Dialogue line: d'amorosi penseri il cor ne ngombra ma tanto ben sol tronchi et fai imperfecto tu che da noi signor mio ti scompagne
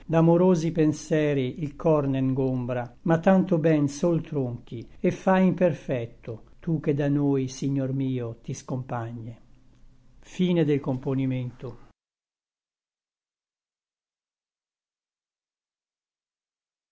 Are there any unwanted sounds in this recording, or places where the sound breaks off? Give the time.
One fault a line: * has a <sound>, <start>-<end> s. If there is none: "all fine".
all fine